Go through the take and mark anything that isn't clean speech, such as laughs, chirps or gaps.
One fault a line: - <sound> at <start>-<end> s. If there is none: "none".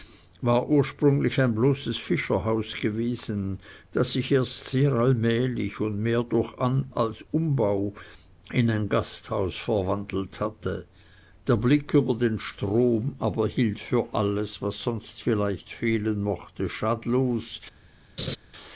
- laugh at 18.2-18.4 s